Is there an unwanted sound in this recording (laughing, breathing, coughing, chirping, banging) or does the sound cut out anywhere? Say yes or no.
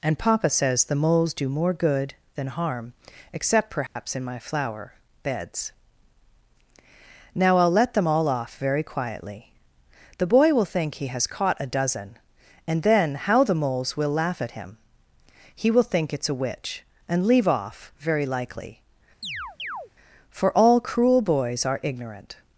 yes